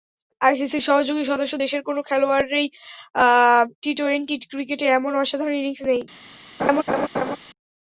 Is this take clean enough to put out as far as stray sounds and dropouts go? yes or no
no